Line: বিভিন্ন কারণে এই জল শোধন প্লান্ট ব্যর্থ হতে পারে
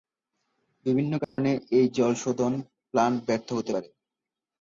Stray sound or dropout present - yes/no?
yes